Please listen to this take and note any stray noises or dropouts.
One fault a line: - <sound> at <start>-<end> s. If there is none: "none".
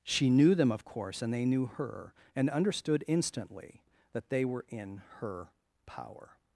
none